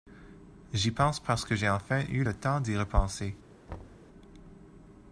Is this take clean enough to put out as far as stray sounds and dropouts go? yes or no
no